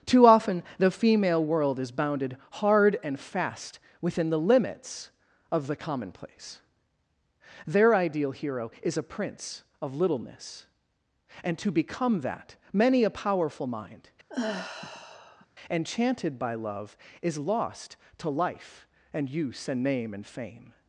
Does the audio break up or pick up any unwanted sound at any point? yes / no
yes